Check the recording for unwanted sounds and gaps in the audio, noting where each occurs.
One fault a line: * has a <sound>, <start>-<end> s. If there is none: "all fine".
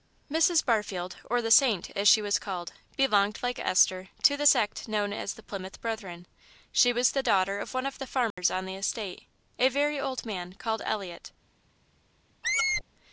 * has a dropout, 8.3-8.4 s
* has a squeak, 12.4-12.8 s